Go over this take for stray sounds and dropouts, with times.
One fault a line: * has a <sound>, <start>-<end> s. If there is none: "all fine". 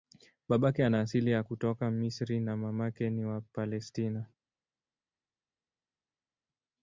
all fine